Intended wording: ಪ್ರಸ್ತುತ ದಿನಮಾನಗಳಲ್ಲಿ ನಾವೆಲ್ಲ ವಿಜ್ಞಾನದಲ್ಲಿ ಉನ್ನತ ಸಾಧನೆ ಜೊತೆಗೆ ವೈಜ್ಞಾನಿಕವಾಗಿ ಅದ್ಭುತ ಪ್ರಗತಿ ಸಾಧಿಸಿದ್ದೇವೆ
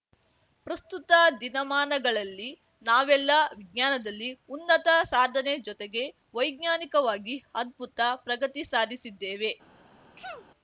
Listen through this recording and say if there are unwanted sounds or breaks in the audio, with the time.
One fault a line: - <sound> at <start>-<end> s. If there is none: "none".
- sneeze at 10.2-10.5 s